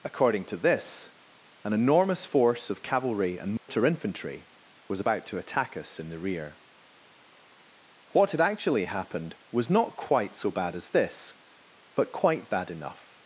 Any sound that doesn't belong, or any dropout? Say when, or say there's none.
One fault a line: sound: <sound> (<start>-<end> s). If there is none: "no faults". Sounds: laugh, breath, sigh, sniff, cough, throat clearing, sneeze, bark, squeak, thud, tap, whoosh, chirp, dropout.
sound: dropout (3.6-3.7 s)